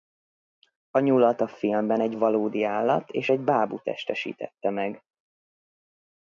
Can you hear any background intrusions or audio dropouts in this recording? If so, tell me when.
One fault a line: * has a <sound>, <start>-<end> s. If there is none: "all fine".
all fine